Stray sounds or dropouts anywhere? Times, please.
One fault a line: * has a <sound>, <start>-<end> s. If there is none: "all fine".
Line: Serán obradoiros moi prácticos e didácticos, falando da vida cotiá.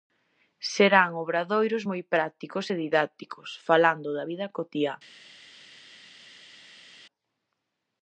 all fine